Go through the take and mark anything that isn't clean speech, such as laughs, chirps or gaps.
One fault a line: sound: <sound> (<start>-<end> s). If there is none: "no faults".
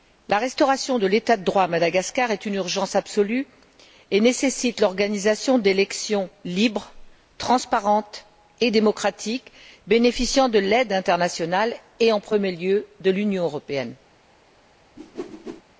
sound: whoosh (15.0-15.6 s)